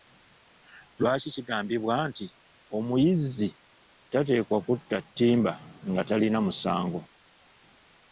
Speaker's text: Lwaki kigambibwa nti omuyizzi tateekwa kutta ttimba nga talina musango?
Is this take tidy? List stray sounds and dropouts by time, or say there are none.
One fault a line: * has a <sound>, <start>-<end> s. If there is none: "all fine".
all fine